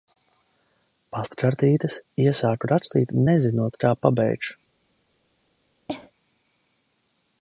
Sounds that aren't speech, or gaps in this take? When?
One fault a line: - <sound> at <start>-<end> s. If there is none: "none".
- cough at 5.9-6.1 s